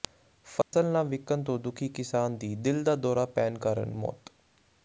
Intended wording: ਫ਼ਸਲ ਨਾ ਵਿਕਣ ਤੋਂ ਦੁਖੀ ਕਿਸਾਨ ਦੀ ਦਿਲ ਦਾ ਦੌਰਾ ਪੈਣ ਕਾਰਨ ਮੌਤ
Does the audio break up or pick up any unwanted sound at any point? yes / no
yes